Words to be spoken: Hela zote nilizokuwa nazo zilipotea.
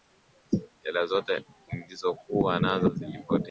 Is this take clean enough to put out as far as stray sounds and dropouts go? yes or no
yes